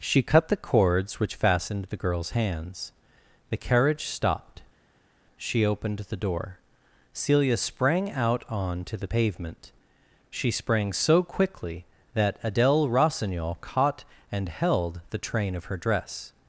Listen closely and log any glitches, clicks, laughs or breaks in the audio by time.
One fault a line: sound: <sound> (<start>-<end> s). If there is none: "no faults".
no faults